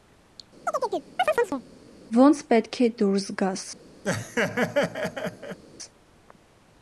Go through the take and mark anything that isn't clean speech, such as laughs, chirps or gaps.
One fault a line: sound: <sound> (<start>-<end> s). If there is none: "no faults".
sound: chirp (0.7-1.6 s)
sound: laugh (4.0-5.6 s)